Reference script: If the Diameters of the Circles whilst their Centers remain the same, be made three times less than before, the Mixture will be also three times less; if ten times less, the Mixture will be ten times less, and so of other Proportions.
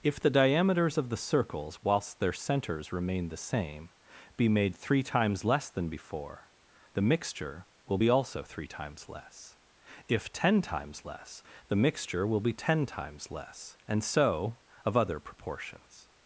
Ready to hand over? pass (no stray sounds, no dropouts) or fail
pass